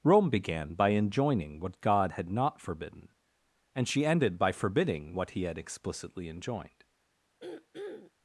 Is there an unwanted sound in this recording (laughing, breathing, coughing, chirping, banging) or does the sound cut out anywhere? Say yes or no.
yes